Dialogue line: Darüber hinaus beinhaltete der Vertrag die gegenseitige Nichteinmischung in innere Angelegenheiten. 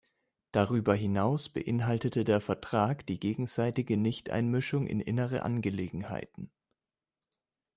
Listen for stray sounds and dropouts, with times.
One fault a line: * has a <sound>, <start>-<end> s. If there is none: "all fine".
all fine